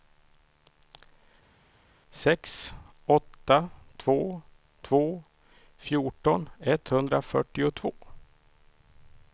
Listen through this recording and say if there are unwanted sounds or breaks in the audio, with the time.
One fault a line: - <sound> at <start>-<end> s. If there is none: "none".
none